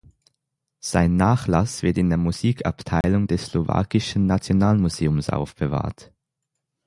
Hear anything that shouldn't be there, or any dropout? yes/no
yes